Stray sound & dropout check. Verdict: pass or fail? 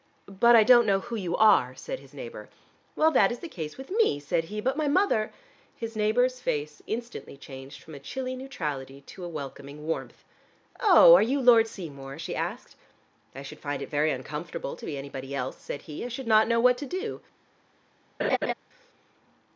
fail